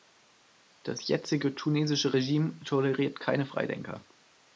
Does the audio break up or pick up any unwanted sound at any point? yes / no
no